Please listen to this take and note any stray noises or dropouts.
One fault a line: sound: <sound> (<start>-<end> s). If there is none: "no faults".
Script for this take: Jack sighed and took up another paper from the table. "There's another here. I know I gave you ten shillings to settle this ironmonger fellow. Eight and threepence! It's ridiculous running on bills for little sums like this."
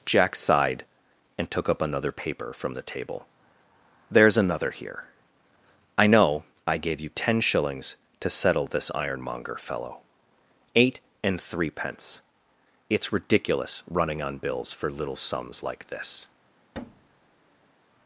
sound: thud (16.7-17.7 s)